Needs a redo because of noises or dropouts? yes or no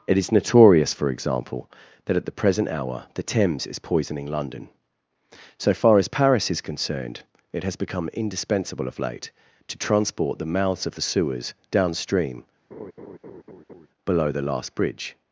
yes